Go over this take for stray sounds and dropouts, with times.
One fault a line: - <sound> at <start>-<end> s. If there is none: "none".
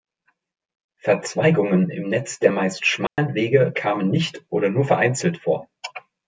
- dropout at 3.1-3.2 s